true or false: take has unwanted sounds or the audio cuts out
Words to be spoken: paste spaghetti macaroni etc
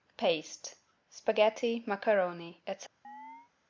true